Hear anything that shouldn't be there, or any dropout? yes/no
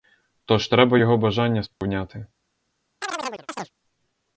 yes